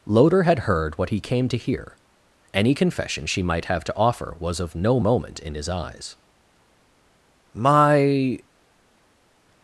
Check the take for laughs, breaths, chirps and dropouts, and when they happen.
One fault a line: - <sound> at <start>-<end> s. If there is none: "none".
none